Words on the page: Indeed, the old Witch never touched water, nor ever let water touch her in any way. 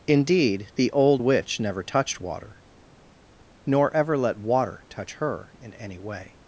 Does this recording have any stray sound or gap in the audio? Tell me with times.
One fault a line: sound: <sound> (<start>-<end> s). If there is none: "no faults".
no faults